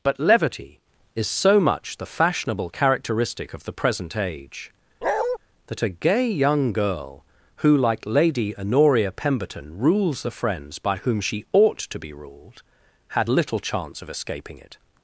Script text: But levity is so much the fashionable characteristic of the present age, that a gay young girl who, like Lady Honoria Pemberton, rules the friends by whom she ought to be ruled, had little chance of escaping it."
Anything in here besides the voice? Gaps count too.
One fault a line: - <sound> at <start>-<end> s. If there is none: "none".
- bark at 5.0-5.4 s